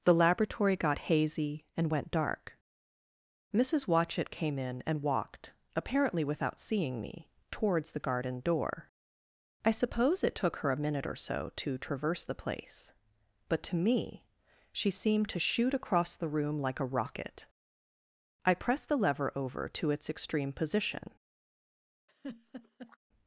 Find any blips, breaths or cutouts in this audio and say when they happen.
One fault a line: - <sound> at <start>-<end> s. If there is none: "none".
- laugh at 22.1-23.0 s